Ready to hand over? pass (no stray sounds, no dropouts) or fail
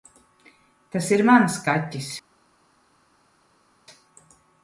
pass